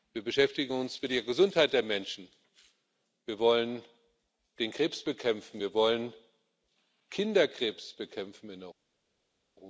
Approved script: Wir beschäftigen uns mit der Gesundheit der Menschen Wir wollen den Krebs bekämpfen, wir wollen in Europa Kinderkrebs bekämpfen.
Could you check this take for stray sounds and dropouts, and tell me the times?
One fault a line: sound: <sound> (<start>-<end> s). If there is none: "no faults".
no faults